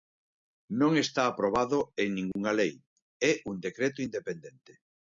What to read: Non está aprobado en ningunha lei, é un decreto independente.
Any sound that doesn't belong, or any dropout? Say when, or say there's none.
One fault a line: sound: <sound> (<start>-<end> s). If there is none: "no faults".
sound: dropout (2.3-2.4 s)